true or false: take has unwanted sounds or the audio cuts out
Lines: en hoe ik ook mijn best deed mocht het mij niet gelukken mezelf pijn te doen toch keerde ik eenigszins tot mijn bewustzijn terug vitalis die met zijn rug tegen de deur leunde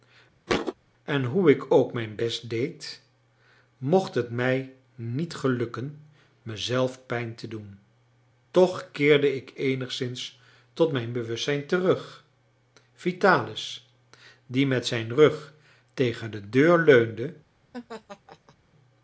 true